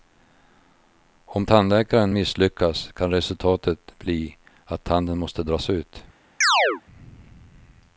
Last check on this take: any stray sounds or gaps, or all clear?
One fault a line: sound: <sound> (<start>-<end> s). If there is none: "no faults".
sound: chirp (6.4-6.8 s)